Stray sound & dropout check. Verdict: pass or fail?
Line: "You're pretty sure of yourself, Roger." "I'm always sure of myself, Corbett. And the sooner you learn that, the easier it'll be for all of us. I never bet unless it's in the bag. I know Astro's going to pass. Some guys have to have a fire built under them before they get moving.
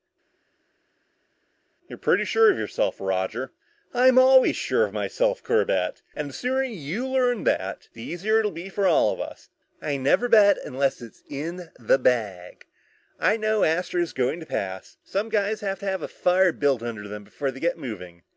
pass